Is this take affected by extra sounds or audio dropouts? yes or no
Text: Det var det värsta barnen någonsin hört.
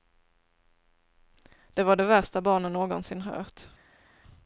no